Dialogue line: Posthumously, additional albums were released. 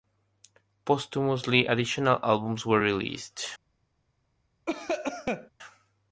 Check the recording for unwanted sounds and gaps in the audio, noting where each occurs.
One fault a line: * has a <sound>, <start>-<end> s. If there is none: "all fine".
* has a cough, 4.7-5.5 s